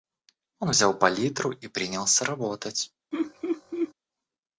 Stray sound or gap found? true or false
true